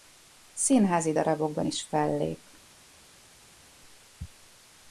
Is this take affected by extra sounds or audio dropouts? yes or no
no